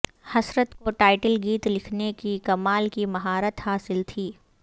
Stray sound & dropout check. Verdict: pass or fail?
pass